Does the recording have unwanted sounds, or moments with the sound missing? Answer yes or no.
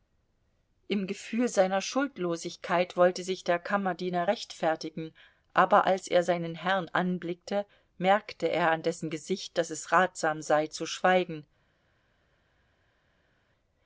no